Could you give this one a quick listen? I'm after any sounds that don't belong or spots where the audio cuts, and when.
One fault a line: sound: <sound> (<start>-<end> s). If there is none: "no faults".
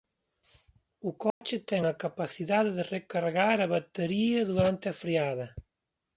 sound: dropout (1.3-1.4 s)